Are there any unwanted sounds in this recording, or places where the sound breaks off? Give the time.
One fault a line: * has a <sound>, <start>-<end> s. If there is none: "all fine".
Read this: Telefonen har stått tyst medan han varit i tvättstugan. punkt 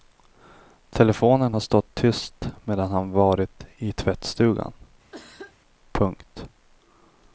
* has a cough, 5.1-5.6 s